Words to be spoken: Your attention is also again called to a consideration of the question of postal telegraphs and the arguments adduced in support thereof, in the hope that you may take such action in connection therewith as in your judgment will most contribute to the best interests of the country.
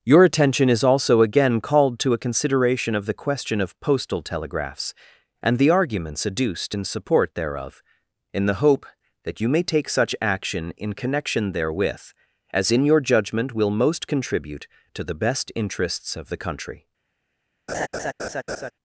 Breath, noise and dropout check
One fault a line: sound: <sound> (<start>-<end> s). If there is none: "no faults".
sound: laugh (17.7-18.7 s)